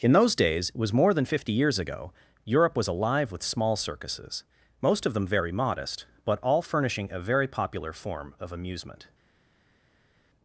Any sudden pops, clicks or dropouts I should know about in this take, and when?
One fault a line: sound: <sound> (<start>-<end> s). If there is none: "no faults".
no faults